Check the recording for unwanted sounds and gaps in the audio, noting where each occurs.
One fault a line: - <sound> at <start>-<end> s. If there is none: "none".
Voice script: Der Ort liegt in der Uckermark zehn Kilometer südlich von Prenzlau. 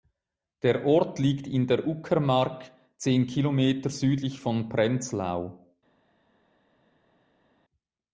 none